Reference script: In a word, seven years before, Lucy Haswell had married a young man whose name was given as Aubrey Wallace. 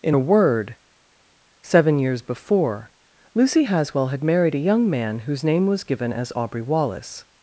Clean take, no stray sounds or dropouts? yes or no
yes